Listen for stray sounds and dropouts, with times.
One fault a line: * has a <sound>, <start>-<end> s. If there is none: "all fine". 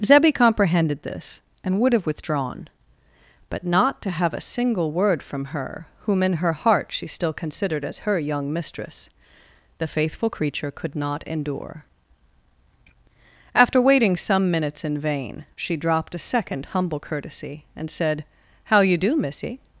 all fine